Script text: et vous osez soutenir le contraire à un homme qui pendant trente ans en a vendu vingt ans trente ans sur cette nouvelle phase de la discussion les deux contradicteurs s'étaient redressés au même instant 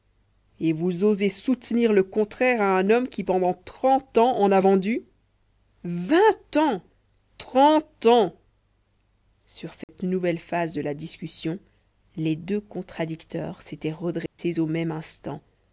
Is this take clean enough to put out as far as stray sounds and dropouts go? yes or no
no